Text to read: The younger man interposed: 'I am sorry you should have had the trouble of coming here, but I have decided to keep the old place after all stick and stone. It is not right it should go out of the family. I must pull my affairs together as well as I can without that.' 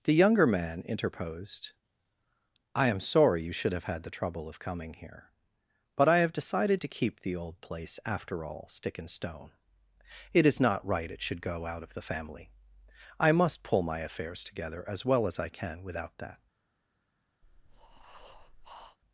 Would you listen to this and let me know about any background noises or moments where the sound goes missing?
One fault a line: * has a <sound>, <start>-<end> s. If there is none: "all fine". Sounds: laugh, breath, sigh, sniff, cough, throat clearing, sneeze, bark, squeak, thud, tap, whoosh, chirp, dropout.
* has a breath, 17.4-19.0 s